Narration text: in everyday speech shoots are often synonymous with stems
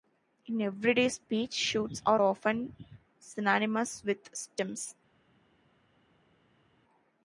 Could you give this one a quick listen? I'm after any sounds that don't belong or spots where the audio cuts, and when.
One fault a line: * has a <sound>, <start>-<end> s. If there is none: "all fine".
all fine